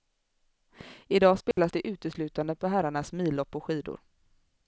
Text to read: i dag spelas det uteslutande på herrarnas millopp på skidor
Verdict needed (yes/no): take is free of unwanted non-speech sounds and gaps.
no